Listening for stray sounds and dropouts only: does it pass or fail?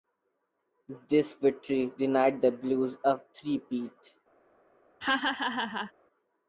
fail